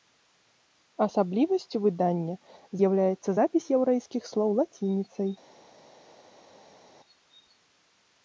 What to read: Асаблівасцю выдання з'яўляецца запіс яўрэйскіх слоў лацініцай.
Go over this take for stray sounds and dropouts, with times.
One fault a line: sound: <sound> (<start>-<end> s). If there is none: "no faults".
no faults